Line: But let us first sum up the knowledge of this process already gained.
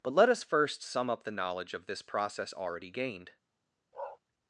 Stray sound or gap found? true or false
true